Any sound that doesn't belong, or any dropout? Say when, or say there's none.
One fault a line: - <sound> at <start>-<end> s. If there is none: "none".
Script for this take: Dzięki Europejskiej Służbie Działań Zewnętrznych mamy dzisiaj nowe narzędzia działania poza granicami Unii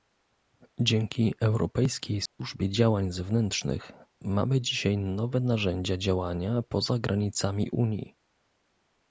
- dropout at 2.3-2.4 s